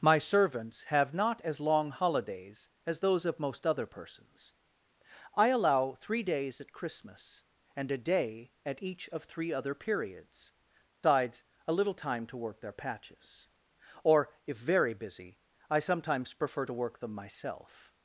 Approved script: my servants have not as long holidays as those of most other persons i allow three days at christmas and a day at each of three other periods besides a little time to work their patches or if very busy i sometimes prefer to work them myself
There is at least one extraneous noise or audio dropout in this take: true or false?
true